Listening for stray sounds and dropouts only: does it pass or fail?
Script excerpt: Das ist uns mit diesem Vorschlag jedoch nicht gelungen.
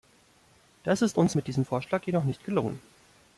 pass